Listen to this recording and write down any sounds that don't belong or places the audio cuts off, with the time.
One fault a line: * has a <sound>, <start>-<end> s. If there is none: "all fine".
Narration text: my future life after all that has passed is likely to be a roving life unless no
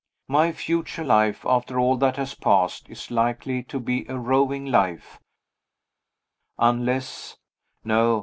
all fine